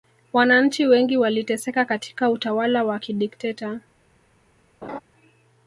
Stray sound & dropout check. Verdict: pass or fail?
fail